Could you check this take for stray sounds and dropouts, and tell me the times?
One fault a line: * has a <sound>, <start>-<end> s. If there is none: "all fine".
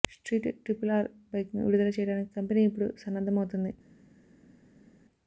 all fine